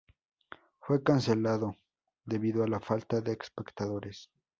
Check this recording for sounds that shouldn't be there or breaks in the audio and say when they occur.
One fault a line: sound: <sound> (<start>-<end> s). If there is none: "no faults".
no faults